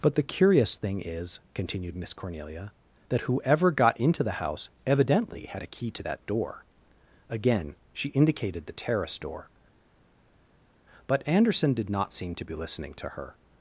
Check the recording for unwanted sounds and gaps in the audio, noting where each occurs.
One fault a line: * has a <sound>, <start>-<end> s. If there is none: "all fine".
all fine